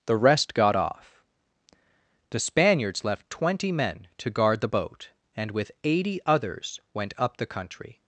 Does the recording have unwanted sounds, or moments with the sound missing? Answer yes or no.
no